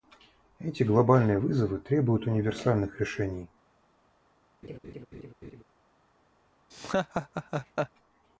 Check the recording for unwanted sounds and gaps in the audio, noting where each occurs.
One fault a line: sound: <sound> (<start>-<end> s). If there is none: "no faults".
sound: laugh (4.6-5.6 s)
sound: laugh (6.7-7.9 s)